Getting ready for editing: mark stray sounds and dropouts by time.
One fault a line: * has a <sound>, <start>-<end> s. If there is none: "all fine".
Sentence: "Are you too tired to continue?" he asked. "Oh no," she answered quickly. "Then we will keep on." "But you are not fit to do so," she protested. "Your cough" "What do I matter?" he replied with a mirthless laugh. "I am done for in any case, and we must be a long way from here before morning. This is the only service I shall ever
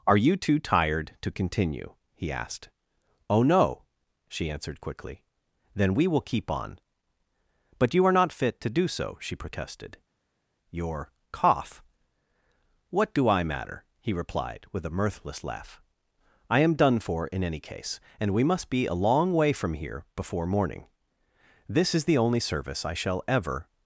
all fine